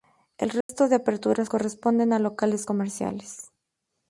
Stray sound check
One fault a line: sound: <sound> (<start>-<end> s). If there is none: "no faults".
sound: dropout (0.6-0.7 s)